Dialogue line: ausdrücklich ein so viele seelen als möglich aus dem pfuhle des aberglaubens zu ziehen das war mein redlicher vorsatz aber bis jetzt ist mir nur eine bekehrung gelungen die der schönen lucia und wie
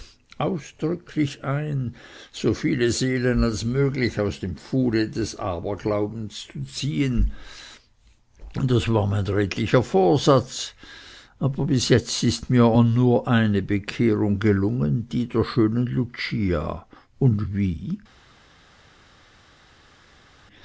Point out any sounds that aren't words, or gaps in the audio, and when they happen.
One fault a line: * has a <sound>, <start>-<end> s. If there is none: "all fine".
all fine